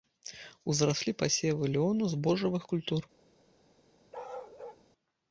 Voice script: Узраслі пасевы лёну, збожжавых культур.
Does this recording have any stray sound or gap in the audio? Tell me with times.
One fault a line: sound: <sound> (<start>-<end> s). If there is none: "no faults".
sound: bark (4.1-4.8 s)